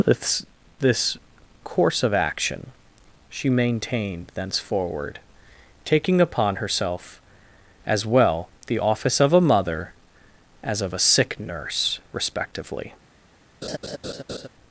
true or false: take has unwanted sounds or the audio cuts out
true